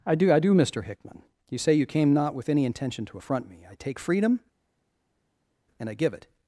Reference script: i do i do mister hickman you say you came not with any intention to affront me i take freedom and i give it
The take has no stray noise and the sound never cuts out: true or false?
true